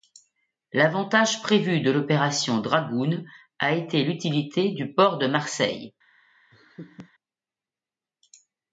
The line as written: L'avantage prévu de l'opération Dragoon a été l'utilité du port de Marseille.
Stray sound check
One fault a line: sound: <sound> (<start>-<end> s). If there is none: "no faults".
sound: laugh (6.5-7.1 s)